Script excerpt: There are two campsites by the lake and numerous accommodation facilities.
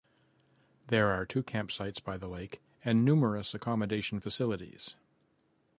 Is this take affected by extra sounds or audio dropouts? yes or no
no